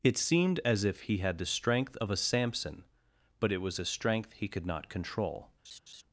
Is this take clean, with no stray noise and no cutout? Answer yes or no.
no